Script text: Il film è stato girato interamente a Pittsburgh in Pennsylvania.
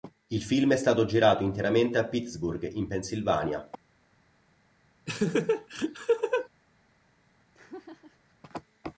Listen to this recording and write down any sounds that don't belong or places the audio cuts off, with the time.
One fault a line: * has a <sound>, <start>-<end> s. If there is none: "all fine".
* has a laugh, 5.1-6.5 s
* has a laugh, 7.5-8.4 s